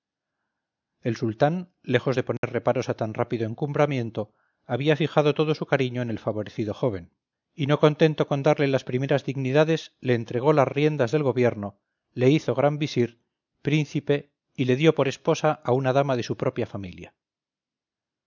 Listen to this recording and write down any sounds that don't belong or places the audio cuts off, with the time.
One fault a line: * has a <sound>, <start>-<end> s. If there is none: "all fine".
* has a dropout, 2.4-2.4 s